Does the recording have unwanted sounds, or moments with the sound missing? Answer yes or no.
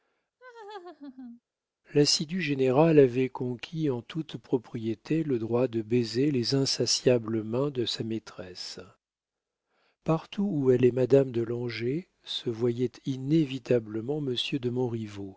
yes